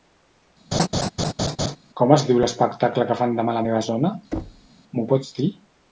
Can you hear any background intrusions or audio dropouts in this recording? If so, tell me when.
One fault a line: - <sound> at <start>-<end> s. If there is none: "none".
- laugh at 0.7-1.8 s
- thud at 4.3-4.7 s